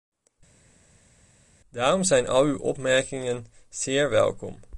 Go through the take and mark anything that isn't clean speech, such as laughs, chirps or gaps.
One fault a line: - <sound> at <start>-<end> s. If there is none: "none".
none